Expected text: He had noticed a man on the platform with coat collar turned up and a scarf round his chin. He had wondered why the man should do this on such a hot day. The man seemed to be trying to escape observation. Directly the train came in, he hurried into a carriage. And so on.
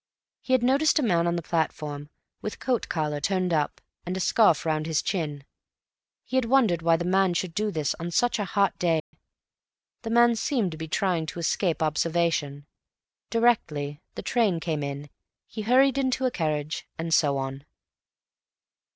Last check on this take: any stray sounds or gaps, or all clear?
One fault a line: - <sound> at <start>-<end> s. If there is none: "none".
- dropout at 9.0-9.1 s